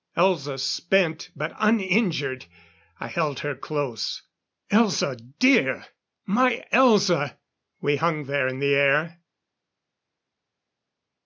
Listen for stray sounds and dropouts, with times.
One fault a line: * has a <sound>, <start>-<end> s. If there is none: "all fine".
all fine